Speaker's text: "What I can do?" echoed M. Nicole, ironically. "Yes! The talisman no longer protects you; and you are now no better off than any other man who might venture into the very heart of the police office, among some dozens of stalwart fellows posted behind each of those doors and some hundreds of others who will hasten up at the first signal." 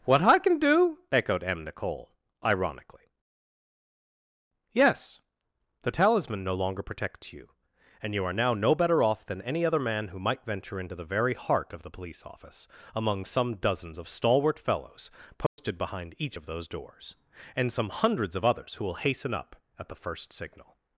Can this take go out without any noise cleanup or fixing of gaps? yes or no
no